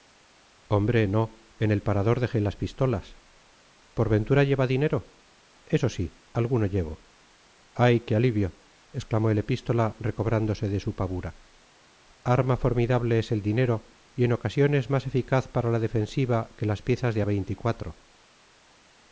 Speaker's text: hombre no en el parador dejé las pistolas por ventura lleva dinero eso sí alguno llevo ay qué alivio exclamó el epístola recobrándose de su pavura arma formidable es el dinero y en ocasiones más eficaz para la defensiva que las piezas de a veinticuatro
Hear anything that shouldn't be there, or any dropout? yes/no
no